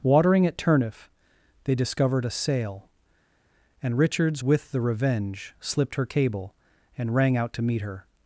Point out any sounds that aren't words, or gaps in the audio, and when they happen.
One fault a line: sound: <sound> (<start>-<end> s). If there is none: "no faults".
no faults